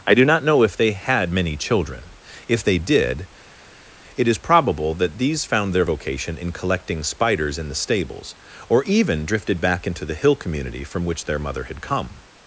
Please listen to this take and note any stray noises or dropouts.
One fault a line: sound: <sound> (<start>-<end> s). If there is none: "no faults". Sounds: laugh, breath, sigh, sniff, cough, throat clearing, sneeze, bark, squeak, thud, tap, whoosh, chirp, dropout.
no faults